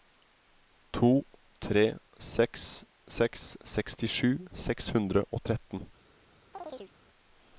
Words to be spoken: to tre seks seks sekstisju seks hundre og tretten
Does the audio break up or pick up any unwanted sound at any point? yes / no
yes